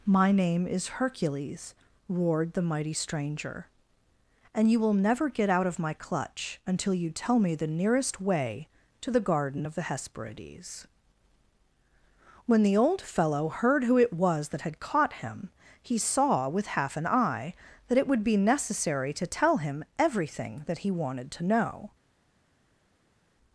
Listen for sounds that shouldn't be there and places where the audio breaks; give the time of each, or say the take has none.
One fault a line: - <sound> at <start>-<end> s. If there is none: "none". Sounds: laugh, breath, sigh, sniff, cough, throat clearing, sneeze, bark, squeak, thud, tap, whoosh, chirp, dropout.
none